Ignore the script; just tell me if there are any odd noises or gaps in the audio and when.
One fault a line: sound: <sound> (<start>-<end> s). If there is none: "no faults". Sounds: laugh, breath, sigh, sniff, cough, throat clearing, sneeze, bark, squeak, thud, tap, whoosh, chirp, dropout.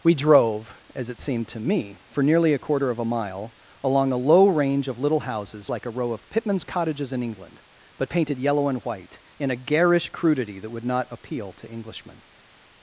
no faults